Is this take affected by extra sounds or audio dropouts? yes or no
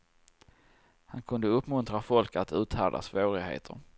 no